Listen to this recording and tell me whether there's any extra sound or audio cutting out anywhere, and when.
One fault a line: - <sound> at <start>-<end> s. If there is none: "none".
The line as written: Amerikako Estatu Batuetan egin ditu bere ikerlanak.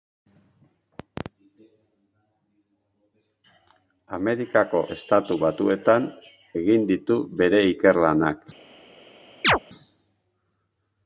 - chirp at 9.4-9.6 s